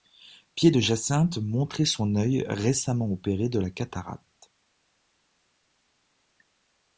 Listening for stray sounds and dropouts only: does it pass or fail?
pass